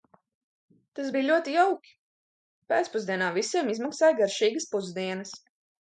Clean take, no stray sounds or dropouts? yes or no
yes